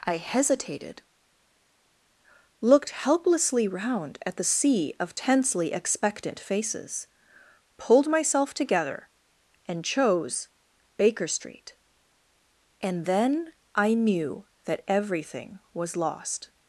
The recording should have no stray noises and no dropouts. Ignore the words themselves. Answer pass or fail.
pass